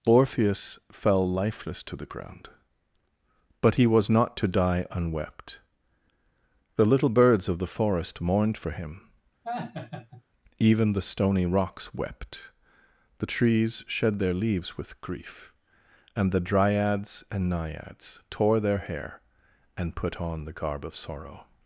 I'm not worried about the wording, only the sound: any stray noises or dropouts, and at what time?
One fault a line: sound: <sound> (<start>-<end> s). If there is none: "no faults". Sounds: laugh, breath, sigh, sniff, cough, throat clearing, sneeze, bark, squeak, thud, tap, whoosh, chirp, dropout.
sound: laugh (9.4-10.2 s)